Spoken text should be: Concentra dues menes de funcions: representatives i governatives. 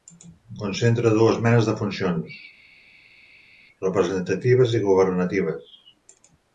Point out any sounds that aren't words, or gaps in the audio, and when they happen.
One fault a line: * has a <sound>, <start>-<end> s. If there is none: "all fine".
all fine